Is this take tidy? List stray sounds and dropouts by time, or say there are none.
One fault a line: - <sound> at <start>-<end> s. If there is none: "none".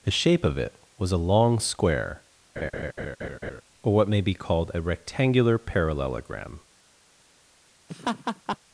- laugh at 2.6-3.6 s
- laugh at 7.9-8.6 s